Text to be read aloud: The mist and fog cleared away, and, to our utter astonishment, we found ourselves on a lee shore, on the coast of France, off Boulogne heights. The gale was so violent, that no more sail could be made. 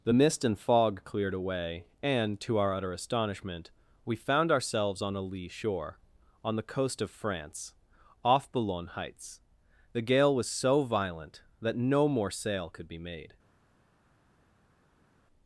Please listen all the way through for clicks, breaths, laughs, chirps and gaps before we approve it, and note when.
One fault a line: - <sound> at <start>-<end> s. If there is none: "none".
none